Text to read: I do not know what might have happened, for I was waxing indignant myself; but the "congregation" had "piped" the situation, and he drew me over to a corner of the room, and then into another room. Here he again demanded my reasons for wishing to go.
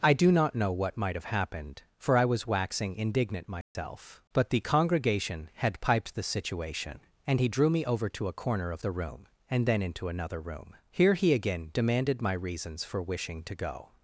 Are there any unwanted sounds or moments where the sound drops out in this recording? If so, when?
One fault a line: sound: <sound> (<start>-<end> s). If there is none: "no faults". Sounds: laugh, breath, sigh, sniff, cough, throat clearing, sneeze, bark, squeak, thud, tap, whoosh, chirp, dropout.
sound: dropout (3.6-3.8 s)